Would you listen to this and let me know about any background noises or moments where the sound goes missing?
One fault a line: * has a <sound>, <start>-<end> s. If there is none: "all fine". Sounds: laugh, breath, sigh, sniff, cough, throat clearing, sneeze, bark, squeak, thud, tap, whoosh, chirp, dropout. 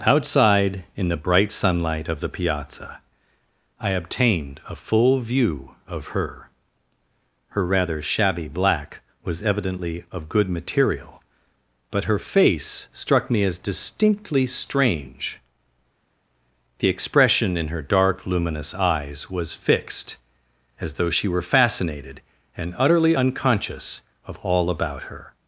all fine